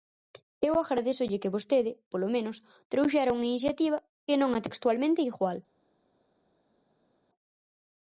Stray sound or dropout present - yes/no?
no